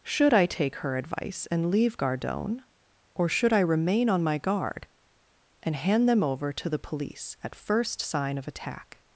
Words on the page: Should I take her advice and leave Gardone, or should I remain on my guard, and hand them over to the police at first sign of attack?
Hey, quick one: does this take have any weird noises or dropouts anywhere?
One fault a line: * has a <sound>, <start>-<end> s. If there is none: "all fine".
all fine